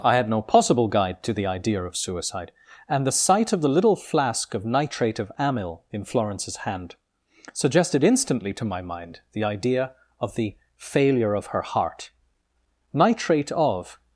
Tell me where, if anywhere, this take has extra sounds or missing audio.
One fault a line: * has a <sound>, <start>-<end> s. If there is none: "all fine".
all fine